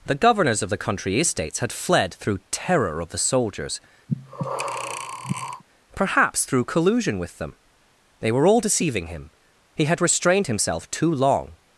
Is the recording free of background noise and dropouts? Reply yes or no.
no